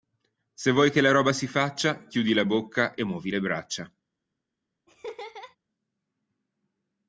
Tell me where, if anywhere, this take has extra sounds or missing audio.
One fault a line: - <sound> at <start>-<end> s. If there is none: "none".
- laugh at 4.9-5.6 s